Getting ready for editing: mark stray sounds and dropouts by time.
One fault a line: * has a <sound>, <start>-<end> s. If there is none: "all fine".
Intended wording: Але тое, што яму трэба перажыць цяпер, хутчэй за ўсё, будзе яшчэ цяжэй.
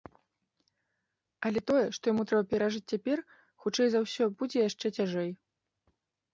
all fine